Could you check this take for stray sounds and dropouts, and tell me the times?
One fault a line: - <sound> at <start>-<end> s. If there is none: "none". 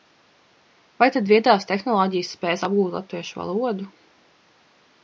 none